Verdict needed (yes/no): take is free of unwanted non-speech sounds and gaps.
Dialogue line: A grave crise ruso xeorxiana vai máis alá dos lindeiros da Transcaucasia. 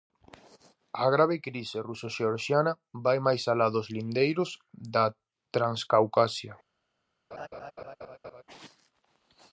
no